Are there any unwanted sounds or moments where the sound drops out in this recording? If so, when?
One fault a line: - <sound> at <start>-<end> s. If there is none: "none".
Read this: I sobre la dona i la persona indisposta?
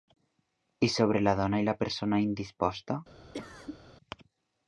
- cough at 3.3-3.8 s